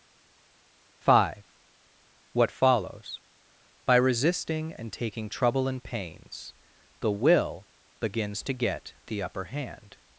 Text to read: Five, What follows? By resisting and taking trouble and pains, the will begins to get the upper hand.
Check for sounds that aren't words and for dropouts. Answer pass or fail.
pass